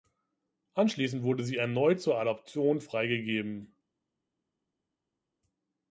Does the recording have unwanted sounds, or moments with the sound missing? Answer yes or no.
no